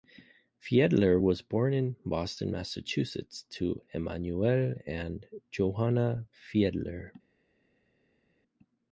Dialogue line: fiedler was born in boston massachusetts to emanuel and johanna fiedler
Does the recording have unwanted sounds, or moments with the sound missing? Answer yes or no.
no